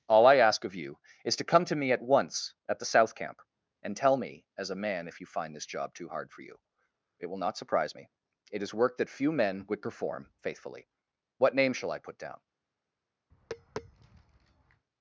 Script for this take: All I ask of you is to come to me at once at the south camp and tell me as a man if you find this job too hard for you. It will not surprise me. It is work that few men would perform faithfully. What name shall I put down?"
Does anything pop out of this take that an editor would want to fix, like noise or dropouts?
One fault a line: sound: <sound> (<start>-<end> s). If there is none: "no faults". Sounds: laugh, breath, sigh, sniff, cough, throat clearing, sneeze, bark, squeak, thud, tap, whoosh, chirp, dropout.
sound: tap (13.3-14.8 s)